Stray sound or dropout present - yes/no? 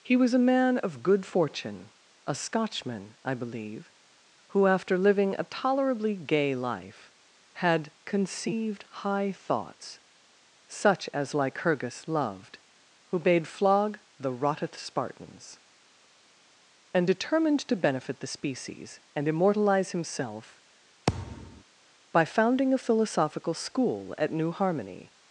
yes